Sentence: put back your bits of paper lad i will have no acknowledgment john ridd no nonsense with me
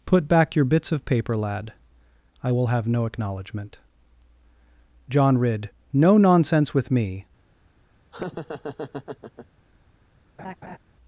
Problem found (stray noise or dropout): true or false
true